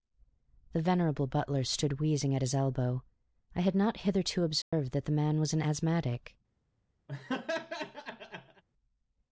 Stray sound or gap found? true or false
true